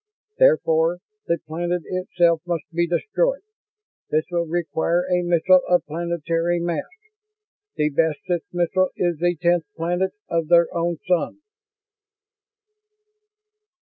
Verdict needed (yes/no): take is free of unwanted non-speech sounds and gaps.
yes